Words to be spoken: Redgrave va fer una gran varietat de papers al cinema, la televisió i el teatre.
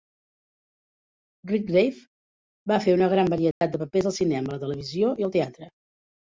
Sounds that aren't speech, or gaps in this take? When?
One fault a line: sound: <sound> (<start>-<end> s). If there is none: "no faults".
sound: dropout (3.5-3.6 s)